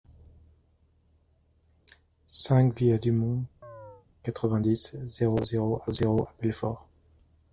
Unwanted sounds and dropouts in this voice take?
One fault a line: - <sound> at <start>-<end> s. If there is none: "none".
- chirp at 3.6-4.1 s